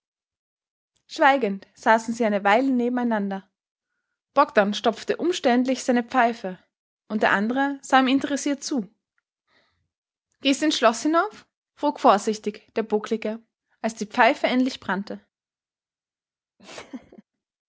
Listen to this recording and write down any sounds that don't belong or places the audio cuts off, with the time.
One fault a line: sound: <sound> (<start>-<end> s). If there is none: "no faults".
sound: laugh (16.6-17.2 s)